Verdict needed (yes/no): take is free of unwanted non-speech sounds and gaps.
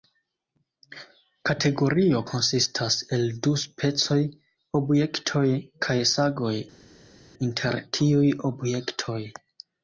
yes